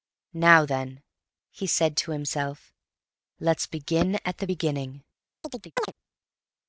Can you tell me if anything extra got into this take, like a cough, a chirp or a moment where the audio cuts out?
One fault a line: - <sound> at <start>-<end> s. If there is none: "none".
- chirp at 5.4-5.9 s